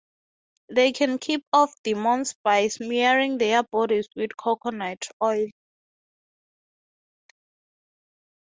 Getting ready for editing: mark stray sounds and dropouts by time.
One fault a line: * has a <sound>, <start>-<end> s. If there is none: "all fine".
all fine